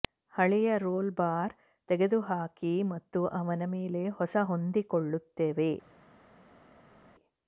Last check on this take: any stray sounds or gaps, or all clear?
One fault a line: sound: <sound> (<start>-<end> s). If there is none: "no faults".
no faults